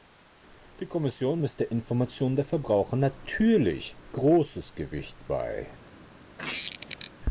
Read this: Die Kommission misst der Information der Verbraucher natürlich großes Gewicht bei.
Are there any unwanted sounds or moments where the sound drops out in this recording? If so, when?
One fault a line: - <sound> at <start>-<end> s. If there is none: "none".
- squeak at 6.4-7.1 s